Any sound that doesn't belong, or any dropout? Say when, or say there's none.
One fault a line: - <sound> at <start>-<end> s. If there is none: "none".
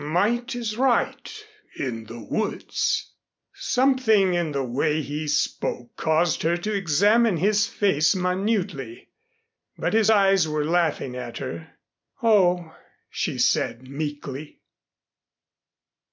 none